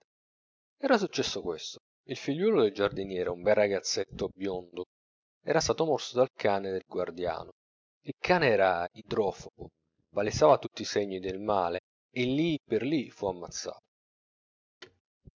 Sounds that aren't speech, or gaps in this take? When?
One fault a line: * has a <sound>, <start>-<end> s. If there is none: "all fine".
* has a thud, 14.8-15.0 s